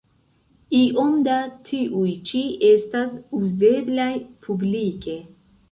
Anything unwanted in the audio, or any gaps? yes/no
no